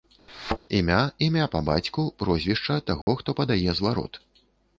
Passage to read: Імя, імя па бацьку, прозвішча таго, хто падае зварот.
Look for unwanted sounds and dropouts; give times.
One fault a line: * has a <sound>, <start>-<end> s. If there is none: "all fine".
* has a thud, 0.3-0.6 s
* has a dropout, 3.0-3.1 s